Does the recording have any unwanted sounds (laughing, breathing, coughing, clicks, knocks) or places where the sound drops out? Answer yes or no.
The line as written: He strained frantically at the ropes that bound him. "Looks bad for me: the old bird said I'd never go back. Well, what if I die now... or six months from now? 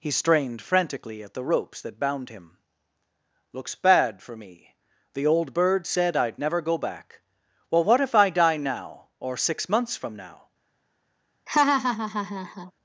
yes